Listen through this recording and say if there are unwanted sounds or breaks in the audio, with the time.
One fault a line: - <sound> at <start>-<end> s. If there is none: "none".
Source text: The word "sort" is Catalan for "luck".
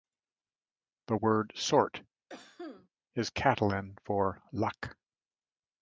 - cough at 2.3-2.9 s